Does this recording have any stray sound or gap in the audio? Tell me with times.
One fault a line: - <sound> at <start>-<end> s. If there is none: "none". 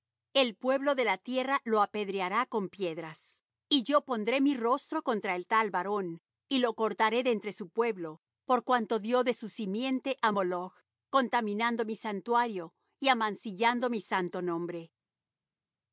none